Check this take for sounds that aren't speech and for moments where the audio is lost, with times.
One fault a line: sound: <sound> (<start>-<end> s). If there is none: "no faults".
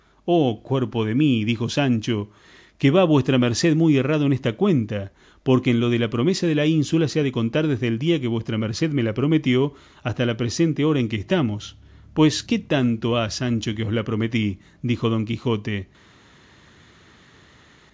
no faults